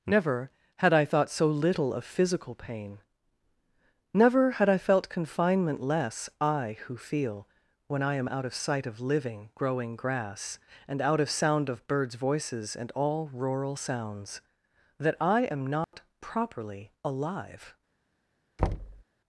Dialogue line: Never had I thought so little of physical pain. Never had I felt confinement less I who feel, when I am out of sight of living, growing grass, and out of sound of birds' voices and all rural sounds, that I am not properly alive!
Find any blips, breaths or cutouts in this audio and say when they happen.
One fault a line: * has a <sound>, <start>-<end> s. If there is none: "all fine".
* has a dropout, 15.8-15.9 s
* has a thud, 18.6-19.0 s